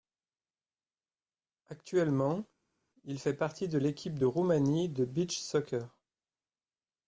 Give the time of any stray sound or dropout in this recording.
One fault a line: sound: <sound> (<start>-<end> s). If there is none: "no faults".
no faults